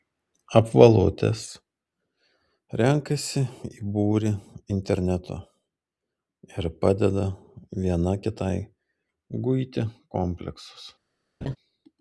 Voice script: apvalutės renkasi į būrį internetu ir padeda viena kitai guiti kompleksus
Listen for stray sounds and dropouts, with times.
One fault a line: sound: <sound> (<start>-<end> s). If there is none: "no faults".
sound: laugh (11.4-11.6 s)